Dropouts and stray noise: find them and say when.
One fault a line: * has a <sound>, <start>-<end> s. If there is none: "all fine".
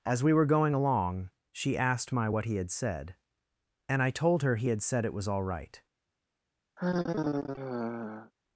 * has a sigh, 6.8-8.3 s